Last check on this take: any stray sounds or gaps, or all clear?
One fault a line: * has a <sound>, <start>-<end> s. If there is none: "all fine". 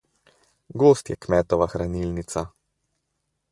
all fine